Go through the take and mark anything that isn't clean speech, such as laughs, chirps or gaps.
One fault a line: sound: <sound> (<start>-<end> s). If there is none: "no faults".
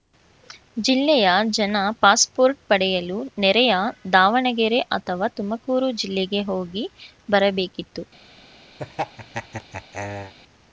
sound: laugh (8.8-10.3 s)